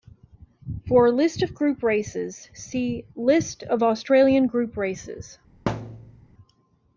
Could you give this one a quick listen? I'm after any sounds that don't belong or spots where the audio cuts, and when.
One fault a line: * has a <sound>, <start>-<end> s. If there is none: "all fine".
* has a thud, 5.7-6.2 s